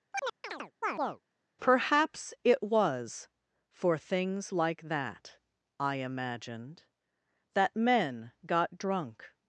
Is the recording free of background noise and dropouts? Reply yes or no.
no